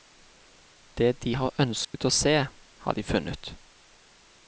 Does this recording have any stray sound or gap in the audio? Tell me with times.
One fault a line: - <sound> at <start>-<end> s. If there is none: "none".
- dropout at 1.8-1.9 s